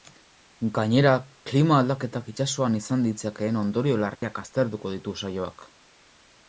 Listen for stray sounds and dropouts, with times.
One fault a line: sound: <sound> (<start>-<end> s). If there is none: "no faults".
sound: dropout (4.2-4.2 s)